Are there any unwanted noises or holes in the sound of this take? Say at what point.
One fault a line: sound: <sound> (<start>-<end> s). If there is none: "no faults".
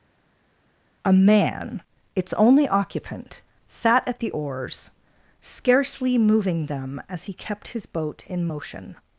no faults